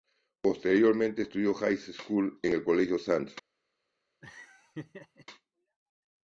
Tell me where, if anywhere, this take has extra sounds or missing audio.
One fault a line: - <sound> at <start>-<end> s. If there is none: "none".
- laugh at 4.2-5.3 s